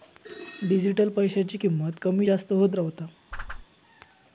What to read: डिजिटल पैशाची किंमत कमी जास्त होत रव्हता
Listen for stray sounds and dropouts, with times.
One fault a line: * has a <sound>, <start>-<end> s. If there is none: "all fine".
* has a whoosh, 3.3-3.7 s